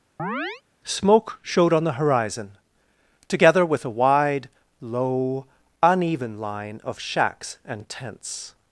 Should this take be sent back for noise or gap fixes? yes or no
yes